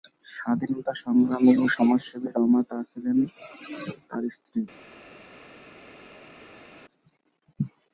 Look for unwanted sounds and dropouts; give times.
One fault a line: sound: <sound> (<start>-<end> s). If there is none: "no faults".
no faults